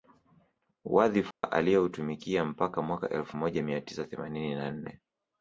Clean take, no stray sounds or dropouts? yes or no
no